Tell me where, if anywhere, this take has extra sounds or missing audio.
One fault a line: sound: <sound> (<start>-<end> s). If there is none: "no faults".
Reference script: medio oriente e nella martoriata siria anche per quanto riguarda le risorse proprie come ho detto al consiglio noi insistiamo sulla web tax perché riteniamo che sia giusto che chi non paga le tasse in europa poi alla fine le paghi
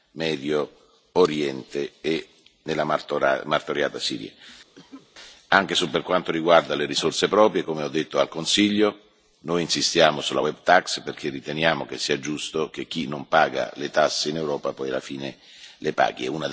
sound: cough (4.7-5.1 s)